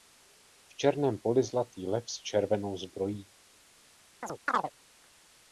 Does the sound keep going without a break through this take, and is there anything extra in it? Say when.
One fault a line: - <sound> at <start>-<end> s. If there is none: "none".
- chirp at 4.2-4.7 s